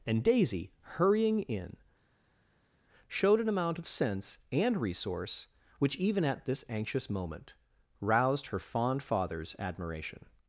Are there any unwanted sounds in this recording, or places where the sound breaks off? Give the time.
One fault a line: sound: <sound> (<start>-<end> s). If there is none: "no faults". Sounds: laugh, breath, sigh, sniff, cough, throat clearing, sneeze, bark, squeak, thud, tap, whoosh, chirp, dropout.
no faults